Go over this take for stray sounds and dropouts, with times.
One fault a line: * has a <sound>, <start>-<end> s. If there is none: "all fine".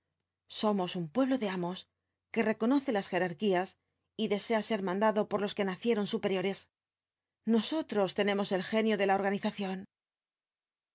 all fine